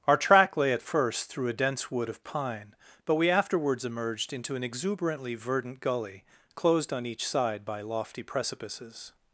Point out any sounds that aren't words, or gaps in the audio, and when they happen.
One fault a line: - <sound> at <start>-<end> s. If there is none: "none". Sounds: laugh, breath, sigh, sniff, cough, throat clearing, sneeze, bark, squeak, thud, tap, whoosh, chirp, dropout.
none